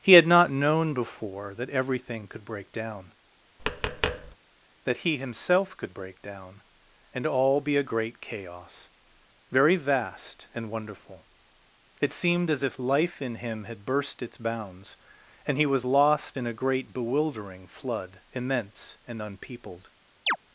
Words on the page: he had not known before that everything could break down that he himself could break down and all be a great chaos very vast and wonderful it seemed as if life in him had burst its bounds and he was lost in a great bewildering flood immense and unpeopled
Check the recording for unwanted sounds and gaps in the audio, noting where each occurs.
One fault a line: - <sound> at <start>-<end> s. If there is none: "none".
- tap at 3.6-4.4 s
- chirp at 20.3-20.4 s